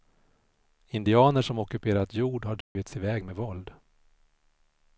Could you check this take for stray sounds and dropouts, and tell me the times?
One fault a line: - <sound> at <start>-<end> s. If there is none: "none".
- dropout at 2.6-2.8 s